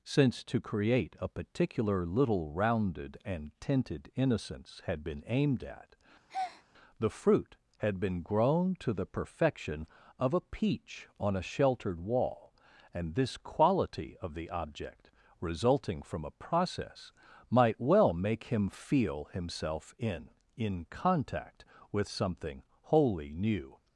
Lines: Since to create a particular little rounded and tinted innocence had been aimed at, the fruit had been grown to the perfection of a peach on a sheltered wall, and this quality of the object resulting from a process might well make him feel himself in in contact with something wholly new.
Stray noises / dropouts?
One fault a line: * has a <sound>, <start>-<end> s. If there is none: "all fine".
* has a breath, 6.3-6.7 s